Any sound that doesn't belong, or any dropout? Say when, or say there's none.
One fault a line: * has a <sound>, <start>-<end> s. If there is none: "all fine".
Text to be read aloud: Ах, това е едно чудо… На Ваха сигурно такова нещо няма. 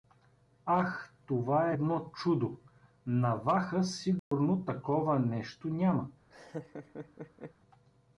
* has a dropout, 4.2-4.3 s
* has a laugh, 6.3-7.5 s